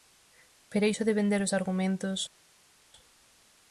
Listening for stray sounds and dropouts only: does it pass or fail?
pass